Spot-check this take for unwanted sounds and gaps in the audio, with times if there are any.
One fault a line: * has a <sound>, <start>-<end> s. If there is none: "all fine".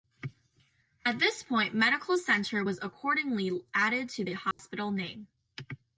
* has a dropout, 4.5-4.6 s